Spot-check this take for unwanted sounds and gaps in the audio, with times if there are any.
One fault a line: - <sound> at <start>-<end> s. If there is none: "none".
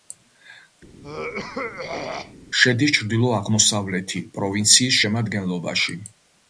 - throat clearing at 1.0-2.3 s